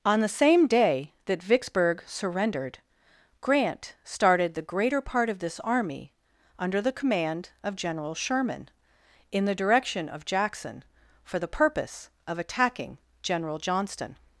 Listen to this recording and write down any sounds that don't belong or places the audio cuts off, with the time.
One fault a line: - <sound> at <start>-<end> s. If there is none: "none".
none